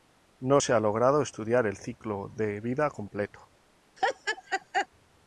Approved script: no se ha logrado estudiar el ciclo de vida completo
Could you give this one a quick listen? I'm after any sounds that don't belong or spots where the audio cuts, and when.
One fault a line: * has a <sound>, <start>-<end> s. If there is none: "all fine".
* has a laugh, 4.0-4.9 s